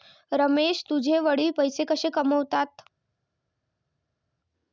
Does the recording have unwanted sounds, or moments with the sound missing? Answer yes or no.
no